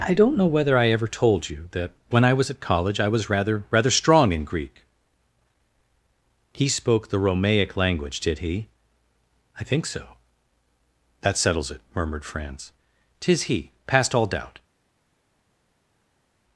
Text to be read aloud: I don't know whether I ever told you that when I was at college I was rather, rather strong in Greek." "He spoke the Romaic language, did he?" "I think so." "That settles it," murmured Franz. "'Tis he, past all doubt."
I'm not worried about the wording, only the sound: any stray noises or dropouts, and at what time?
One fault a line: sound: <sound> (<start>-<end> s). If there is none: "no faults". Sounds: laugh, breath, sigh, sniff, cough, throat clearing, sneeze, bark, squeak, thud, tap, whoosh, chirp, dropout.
no faults